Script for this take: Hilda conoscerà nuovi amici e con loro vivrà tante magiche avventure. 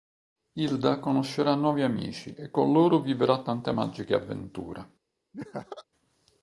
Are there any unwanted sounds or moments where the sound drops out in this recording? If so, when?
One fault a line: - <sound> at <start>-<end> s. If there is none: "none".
- laugh at 5.3-5.8 s